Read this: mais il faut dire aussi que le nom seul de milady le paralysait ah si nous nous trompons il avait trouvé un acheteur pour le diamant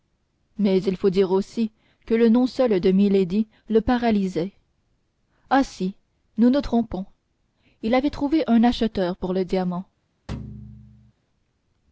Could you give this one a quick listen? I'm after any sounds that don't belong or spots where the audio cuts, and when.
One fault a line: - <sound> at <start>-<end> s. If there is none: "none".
- thud at 10.3-11.1 s